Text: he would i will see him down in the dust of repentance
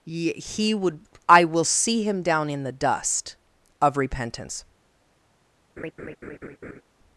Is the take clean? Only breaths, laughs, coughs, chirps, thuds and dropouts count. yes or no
no